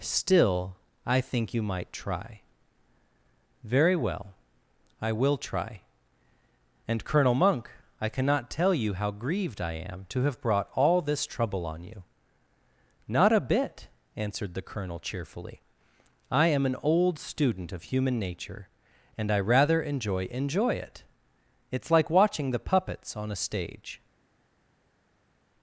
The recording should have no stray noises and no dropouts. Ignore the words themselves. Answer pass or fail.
pass